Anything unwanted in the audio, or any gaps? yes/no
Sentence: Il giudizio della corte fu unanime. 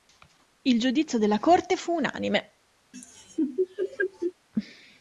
yes